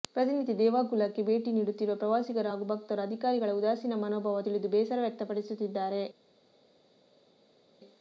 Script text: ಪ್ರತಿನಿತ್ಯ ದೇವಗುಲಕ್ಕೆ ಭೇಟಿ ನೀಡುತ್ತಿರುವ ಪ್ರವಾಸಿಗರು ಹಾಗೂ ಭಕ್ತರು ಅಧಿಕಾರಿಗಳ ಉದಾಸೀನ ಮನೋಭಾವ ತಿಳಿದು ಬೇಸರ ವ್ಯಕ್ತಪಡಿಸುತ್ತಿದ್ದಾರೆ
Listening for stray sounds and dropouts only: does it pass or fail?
pass